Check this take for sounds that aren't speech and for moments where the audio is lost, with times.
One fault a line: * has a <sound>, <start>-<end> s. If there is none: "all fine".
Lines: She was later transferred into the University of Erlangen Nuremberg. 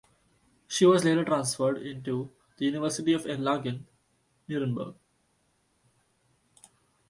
all fine